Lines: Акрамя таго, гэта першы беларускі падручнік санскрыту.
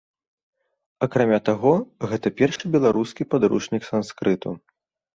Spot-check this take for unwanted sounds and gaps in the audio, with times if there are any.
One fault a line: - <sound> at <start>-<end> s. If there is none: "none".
- dropout at 2.6-2.6 s